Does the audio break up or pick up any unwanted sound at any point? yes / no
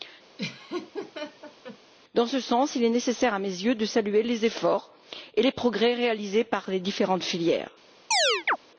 yes